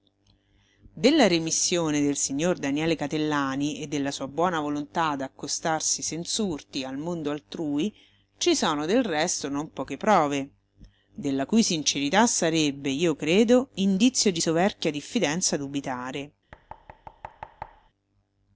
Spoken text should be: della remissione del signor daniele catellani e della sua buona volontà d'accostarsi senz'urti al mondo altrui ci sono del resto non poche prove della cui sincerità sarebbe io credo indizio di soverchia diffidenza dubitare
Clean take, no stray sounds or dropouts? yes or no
no